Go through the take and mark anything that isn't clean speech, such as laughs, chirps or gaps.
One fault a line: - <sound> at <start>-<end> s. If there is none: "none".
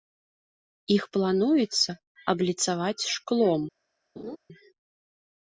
- laugh at 4.2-4.4 s